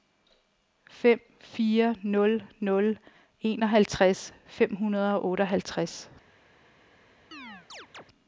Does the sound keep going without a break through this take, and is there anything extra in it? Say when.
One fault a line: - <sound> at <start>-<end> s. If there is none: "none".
- chirp at 7.3-8.0 s